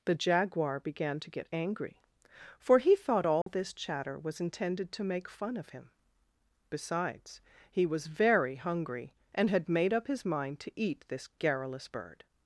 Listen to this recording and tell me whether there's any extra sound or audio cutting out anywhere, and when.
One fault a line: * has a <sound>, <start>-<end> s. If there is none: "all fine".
* has a dropout, 3.4-3.5 s